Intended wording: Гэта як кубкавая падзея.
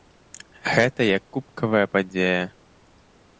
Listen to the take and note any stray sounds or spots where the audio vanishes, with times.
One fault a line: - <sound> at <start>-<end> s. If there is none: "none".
none